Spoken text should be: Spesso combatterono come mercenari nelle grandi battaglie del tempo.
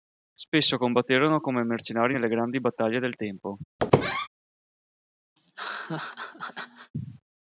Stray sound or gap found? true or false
true